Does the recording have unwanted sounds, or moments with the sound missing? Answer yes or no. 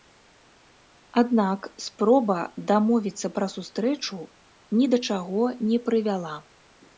no